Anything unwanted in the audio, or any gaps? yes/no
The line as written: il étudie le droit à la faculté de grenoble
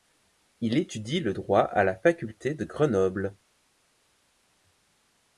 no